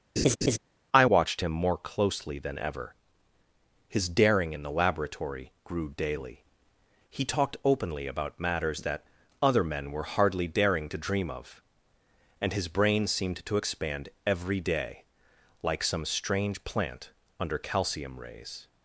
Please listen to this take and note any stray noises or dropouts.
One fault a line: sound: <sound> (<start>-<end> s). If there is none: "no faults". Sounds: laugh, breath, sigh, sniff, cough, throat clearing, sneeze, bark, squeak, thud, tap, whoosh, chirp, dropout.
sound: laugh (0.2-0.6 s)